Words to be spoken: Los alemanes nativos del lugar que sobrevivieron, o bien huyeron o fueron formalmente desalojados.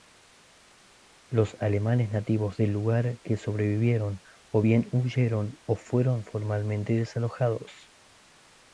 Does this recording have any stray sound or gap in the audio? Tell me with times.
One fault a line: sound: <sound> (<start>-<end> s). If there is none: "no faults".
no faults